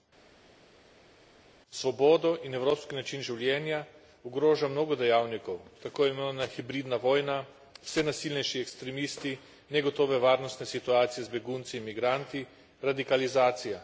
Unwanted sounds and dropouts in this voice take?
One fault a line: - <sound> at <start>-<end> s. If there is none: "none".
none